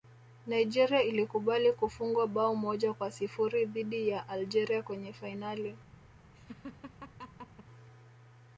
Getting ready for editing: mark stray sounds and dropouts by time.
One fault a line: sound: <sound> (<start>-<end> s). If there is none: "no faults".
sound: laugh (6.3-7.7 s)